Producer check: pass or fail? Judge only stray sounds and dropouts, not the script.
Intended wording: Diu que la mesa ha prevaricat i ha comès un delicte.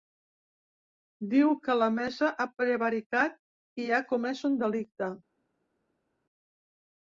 pass